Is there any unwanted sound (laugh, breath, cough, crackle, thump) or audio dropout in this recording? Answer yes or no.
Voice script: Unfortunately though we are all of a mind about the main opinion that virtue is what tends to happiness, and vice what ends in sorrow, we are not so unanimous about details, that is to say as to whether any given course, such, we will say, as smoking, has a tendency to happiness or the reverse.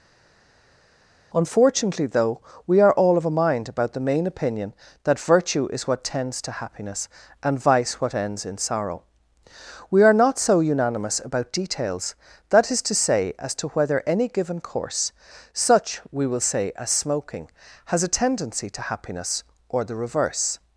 no